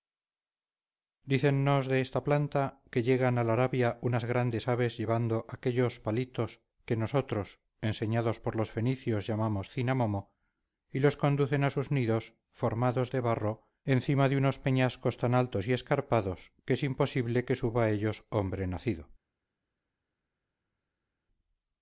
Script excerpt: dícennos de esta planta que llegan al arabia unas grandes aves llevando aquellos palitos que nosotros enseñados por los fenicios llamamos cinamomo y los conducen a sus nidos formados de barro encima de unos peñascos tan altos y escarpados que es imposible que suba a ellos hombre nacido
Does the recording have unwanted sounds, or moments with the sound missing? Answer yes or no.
no